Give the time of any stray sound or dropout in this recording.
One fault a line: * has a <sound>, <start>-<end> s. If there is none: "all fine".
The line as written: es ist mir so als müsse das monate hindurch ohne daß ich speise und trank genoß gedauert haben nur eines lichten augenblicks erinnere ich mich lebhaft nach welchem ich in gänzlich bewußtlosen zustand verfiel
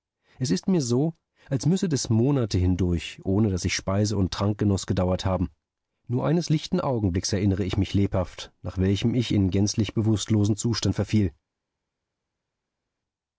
all fine